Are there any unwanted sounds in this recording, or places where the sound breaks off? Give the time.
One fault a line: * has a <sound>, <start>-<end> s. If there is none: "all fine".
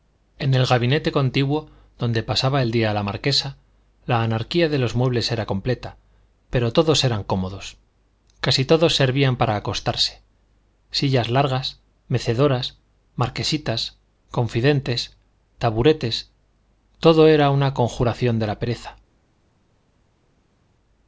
all fine